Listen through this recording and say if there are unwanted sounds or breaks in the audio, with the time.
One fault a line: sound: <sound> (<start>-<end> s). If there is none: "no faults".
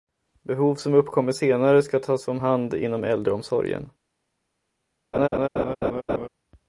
sound: laugh (5.1-6.3 s)